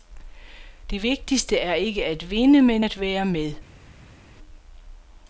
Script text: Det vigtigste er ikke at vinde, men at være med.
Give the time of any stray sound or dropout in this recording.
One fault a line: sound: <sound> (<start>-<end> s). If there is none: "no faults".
no faults